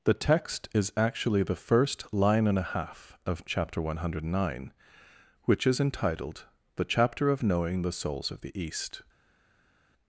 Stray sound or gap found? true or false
false